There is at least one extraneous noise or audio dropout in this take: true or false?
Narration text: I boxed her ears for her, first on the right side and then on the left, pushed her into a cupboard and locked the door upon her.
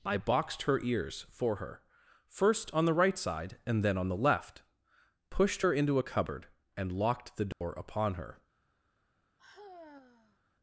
true